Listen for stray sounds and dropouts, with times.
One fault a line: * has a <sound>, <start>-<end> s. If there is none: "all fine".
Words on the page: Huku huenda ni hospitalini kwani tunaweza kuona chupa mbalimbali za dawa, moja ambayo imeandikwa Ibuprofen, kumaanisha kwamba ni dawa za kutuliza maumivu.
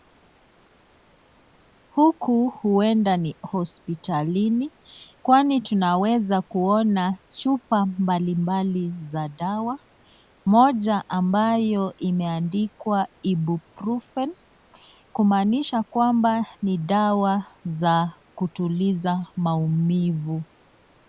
all fine